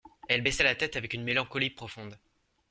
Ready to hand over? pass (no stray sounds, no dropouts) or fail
pass